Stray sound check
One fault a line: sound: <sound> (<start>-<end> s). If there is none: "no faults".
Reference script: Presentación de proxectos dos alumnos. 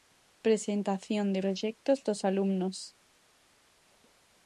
no faults